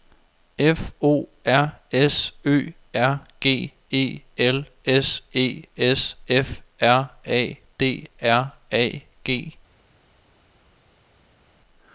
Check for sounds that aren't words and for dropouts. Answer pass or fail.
pass